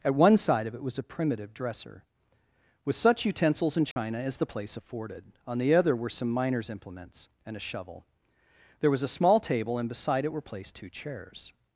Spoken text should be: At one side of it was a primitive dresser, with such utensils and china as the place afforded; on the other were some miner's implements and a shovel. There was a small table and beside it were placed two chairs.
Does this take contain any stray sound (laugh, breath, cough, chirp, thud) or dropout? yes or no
yes